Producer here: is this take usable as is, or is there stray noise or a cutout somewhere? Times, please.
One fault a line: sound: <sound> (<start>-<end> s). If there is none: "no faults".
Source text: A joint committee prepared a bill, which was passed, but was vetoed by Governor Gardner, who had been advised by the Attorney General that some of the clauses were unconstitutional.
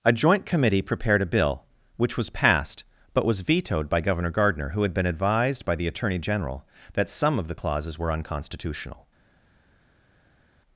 no faults